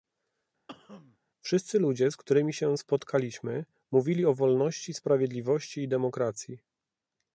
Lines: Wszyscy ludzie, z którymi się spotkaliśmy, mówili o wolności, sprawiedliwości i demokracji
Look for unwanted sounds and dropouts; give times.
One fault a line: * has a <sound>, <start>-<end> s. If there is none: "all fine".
* has a cough, 0.7-1.2 s